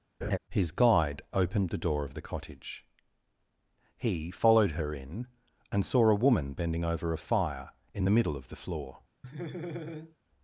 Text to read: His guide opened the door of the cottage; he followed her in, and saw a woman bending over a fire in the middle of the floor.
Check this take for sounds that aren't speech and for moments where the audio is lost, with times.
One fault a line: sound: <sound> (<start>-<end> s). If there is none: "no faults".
sound: laugh (0.2-0.4 s)
sound: laugh (9.2-10.2 s)